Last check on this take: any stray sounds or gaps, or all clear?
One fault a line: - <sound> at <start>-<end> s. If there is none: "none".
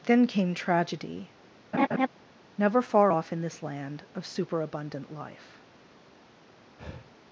- laugh at 1.7-2.1 s
- breath at 6.8-7.1 s